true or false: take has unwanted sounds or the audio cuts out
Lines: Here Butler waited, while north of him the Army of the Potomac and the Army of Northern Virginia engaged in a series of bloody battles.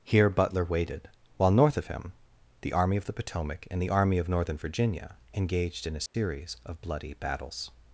true